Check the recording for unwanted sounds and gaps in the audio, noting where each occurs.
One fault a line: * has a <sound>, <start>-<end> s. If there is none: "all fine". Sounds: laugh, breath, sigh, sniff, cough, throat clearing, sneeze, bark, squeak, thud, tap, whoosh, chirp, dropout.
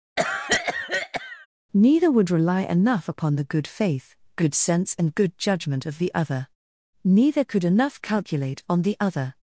* has a cough, 0.2-1.5 s